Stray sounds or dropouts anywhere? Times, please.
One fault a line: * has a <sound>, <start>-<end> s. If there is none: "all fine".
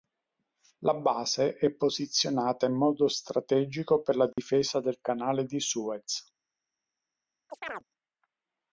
* has a dropout, 4.3-4.4 s
* has a chirp, 7.5-7.8 s